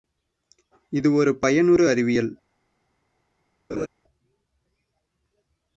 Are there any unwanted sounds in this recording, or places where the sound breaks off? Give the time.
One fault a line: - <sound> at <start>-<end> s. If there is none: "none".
- laugh at 3.7-3.9 s